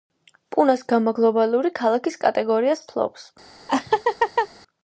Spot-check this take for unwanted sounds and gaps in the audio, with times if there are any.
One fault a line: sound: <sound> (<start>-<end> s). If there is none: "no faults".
sound: laugh (3.7-4.5 s)